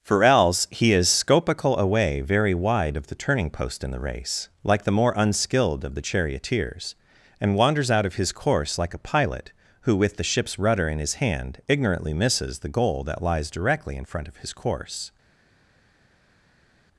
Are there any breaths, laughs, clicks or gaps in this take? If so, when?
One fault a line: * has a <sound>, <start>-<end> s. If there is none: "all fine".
all fine